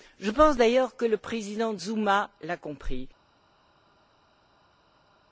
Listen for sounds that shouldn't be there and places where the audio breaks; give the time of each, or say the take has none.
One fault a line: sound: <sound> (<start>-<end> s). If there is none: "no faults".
no faults